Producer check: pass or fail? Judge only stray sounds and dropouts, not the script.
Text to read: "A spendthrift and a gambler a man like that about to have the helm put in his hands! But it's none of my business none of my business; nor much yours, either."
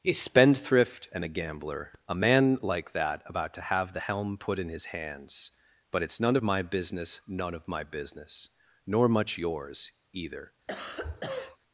fail